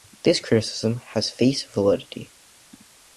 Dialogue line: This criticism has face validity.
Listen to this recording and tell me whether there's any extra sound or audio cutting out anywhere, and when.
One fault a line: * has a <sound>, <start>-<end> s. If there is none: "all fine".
all fine